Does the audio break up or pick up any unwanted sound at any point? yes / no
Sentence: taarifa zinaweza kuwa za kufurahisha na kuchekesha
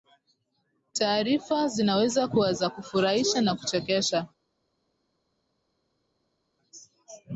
no